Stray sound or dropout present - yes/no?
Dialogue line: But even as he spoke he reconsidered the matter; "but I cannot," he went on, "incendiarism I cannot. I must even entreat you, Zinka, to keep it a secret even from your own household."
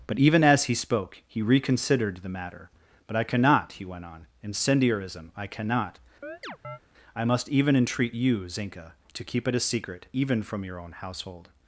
yes